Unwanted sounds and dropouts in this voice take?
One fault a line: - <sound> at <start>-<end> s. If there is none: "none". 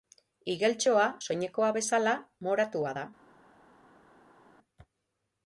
none